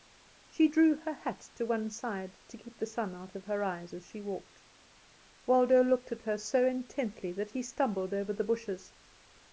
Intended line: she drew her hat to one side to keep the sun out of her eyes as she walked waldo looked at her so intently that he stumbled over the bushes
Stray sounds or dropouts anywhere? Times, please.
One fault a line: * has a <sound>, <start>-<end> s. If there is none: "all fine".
all fine